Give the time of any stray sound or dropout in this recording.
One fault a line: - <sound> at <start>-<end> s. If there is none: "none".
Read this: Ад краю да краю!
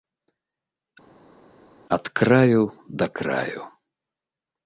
none